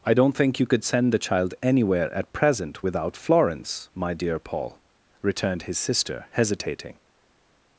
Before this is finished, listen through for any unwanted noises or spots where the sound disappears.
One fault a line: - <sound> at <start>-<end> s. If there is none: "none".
none